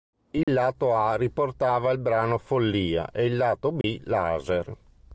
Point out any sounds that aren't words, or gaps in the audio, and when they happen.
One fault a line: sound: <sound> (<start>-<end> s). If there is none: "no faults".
sound: dropout (0.4-0.5 s)
sound: dropout (3.8-3.8 s)